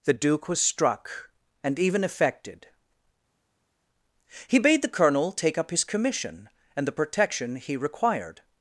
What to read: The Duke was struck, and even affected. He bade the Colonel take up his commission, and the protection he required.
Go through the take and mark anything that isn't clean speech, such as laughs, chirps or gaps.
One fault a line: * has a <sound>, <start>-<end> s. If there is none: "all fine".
all fine